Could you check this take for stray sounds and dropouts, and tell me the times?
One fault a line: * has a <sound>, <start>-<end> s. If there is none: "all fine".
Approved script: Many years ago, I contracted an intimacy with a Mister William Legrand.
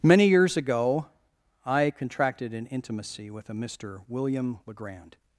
all fine